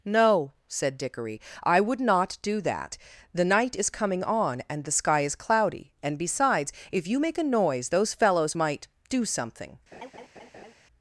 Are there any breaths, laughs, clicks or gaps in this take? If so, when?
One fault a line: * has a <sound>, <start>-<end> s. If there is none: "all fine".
* has a laugh, 9.9-10.7 s